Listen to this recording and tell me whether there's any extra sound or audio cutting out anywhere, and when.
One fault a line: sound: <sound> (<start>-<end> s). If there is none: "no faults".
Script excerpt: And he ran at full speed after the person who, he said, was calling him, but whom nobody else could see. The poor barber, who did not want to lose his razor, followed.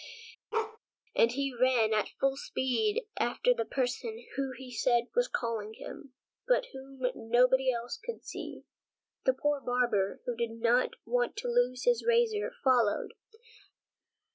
sound: bark (0.5-0.8 s)